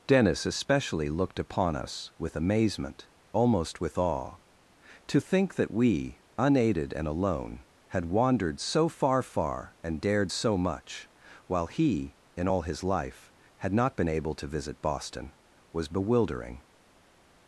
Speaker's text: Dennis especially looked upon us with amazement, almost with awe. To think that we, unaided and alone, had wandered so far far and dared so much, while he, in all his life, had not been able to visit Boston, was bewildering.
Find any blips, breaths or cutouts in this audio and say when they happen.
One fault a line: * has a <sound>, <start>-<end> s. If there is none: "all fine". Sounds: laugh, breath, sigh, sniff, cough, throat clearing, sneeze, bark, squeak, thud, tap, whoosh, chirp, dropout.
all fine